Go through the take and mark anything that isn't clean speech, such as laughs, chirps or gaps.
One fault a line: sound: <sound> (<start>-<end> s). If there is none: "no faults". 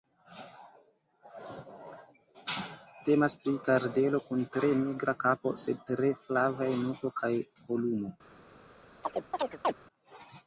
sound: chirp (9.0-9.7 s)